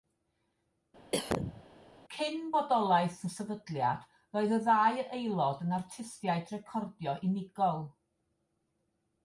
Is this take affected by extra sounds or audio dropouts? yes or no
yes